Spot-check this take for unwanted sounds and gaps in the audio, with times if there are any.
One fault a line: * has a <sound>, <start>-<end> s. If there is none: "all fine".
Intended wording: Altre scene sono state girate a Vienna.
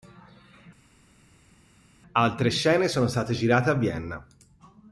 all fine